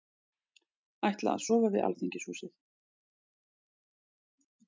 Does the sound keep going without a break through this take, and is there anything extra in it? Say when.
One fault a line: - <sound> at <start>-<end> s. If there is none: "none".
none